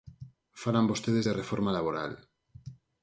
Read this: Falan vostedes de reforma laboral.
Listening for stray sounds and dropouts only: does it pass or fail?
pass